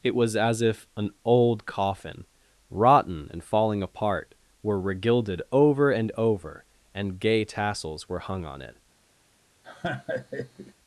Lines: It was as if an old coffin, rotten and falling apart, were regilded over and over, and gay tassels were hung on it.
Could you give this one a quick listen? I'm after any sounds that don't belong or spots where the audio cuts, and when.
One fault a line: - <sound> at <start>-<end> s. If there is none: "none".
- laugh at 9.6-10.7 s